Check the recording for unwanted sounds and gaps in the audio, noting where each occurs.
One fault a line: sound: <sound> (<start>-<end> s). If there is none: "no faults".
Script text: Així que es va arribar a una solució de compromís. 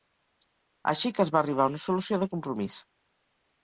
no faults